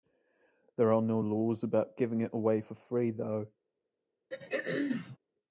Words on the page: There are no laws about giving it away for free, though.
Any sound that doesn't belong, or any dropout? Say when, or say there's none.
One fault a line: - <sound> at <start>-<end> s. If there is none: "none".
- throat clearing at 4.3-5.2 s